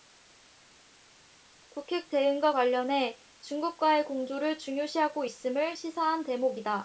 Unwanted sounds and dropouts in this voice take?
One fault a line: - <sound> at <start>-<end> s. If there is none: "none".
none